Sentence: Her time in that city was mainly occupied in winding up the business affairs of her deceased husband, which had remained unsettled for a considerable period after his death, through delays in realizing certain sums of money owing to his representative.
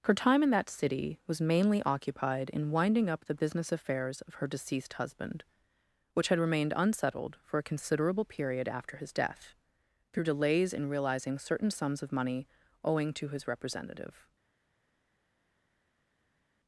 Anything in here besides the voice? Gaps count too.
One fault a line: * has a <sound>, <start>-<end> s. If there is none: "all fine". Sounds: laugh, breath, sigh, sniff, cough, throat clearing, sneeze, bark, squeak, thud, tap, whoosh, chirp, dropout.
all fine